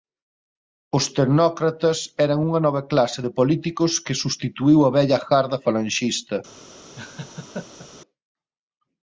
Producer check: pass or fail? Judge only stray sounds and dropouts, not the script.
fail